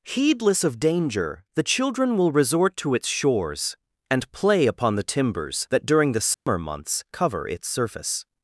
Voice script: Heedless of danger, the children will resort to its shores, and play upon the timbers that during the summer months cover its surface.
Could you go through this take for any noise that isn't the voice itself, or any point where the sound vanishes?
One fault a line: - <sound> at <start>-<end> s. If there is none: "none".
- dropout at 6.3-6.5 s